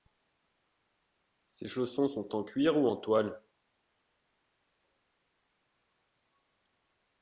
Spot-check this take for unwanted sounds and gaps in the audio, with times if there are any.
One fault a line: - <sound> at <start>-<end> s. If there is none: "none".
none